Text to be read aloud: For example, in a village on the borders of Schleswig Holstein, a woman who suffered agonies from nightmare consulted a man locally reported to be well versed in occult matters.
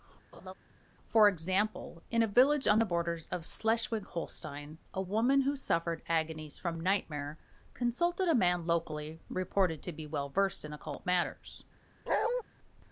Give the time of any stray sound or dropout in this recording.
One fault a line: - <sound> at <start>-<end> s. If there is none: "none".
- laugh at 0.3-0.5 s
- bark at 12.1-12.4 s